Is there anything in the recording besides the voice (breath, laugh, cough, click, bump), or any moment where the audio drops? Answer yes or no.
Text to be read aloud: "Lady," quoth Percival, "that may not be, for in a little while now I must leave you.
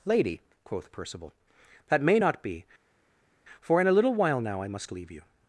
no